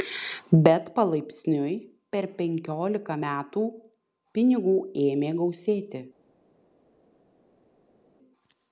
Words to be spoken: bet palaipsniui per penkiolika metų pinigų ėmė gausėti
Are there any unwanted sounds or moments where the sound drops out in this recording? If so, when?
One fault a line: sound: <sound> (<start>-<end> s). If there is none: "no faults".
no faults